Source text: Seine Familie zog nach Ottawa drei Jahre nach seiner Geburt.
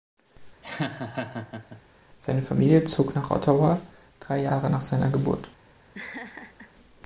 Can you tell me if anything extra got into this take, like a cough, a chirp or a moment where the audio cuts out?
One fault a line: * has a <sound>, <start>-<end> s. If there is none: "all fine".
* has a laugh, 0.6-1.8 s
* has a laugh, 5.9-6.7 s